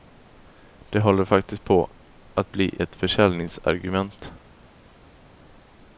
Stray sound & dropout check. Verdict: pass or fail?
pass